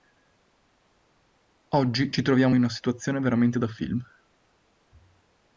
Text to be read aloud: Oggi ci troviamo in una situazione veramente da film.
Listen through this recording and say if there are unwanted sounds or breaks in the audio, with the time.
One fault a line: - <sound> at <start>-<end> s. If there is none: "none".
none